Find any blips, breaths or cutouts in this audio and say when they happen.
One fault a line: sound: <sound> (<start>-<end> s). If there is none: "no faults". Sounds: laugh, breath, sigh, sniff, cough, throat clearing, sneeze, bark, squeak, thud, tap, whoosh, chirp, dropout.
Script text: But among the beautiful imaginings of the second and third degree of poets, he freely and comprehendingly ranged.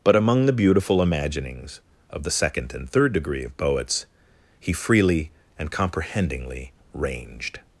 no faults